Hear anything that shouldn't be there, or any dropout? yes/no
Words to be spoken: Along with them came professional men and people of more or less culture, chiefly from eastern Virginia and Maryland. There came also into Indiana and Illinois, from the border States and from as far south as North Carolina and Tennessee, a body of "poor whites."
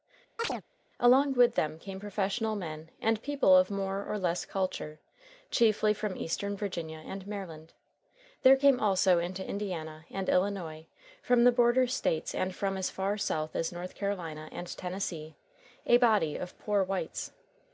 yes